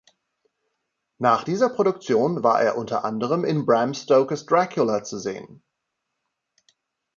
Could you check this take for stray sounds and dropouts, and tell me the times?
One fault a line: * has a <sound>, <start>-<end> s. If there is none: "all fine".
all fine